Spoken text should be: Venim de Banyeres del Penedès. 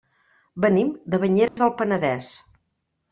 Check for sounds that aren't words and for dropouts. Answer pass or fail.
fail